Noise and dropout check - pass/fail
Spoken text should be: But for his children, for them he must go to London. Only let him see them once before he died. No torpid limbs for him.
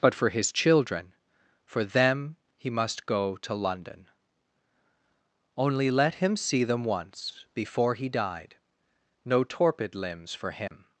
fail